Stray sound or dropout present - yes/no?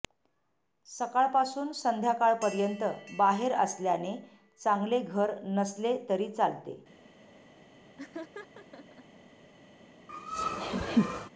yes